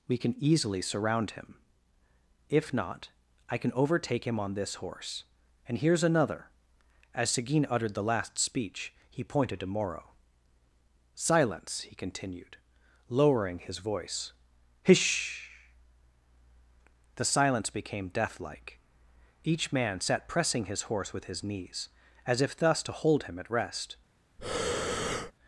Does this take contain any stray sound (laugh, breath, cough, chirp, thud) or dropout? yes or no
yes